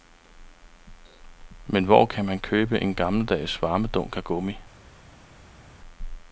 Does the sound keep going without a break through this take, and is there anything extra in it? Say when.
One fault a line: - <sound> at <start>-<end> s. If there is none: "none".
none